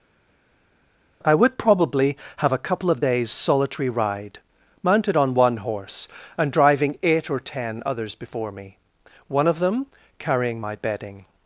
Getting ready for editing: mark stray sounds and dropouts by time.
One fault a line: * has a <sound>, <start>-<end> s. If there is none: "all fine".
all fine